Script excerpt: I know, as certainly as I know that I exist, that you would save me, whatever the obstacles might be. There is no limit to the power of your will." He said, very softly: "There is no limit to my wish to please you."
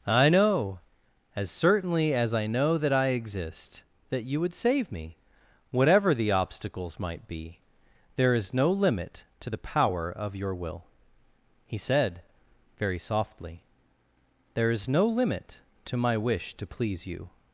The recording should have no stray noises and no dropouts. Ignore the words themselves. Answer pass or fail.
pass